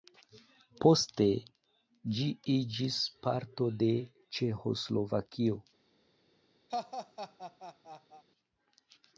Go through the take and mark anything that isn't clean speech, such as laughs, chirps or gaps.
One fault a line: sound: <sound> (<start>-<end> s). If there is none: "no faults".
sound: laugh (6.7-8.2 s)